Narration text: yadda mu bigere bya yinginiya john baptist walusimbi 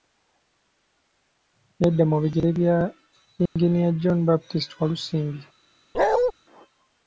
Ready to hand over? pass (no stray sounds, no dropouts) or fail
fail